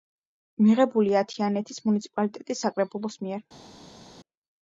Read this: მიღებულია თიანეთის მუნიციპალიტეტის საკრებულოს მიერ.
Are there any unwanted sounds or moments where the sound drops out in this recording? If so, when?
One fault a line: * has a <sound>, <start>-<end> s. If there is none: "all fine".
all fine